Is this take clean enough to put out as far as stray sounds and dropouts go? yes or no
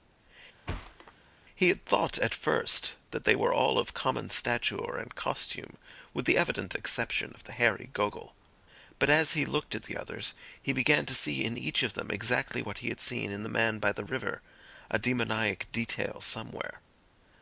no